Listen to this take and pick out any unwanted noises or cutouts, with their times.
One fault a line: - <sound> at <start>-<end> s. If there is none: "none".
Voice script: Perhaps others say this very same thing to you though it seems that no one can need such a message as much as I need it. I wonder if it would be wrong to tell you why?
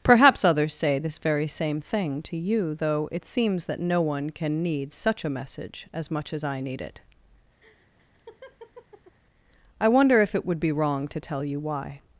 - laugh at 7.6-9.2 s